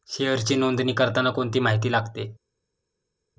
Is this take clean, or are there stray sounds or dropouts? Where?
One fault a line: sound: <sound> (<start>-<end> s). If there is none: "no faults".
no faults